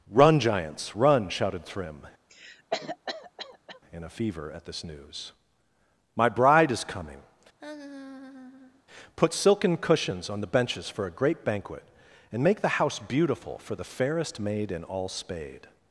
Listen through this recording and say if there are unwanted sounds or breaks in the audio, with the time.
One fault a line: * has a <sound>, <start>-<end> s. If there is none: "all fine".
* has a cough, 2.3-3.8 s
* has a laugh, 7.6-8.8 s